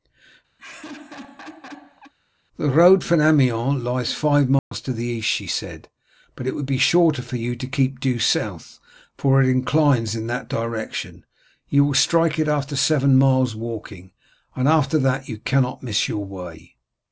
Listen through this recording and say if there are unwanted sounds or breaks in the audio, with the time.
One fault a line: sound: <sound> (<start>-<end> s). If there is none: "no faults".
sound: laugh (0.6-2.1 s)
sound: dropout (4.6-4.7 s)